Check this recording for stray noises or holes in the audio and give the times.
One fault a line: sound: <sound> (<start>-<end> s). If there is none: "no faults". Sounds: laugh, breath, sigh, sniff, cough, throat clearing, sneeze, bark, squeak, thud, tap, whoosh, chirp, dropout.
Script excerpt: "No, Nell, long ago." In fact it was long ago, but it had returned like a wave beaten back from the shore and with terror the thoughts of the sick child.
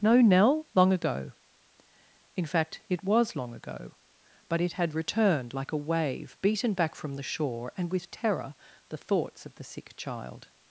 no faults